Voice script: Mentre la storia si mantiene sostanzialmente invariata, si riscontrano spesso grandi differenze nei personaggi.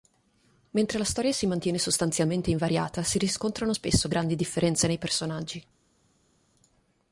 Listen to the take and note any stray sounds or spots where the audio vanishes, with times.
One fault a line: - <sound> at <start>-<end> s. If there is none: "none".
none